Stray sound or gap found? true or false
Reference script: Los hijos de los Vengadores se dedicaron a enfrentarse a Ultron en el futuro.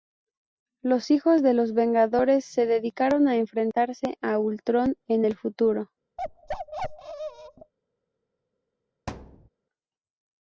true